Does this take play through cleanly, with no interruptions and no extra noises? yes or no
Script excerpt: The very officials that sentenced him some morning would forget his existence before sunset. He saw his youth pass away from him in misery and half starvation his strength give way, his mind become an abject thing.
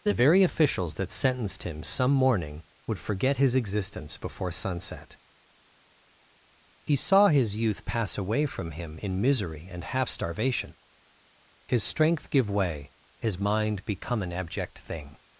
yes